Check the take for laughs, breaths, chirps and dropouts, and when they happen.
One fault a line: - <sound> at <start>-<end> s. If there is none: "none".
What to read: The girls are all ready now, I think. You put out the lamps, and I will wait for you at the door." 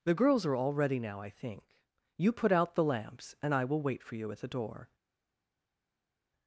none